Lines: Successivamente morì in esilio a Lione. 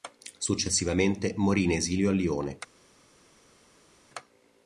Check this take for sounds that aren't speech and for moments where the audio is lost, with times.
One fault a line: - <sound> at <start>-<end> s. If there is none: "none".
none